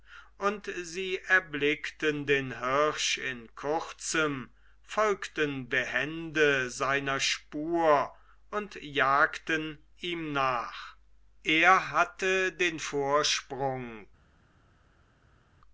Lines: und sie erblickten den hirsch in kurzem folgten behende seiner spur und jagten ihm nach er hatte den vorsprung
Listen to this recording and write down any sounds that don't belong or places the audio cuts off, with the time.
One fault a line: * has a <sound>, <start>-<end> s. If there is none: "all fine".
all fine